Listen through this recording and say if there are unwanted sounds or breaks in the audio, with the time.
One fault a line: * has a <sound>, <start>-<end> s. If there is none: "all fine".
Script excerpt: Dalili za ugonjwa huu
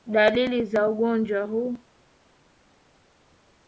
all fine